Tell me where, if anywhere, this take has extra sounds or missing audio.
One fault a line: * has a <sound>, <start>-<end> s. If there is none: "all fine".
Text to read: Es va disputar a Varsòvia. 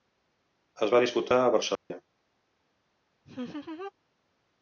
* has a dropout, 1.8-1.9 s
* has a laugh, 3.2-3.9 s